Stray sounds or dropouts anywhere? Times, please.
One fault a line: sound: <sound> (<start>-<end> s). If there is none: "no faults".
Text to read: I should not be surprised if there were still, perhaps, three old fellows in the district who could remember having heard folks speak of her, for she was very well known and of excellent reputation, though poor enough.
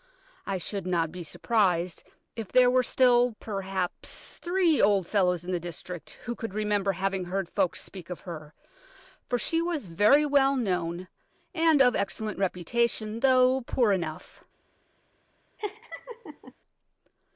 sound: laugh (15.6-16.5 s)